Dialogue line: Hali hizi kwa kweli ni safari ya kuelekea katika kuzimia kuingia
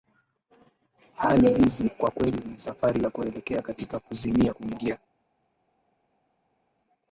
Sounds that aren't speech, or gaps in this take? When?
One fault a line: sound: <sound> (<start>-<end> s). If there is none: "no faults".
no faults